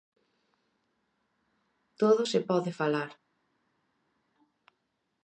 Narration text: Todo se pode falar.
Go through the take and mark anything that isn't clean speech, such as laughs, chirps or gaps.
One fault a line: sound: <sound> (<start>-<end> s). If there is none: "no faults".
no faults